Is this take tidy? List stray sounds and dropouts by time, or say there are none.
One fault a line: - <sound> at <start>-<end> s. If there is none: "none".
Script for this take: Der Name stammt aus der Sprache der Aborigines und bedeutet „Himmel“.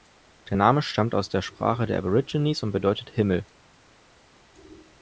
none